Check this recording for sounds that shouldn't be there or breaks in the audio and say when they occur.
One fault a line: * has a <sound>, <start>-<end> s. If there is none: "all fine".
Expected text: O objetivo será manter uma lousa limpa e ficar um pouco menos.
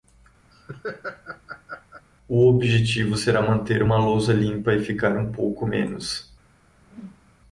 * has a laugh, 0.5-2.1 s
* has a whoosh, 6.8-7.4 s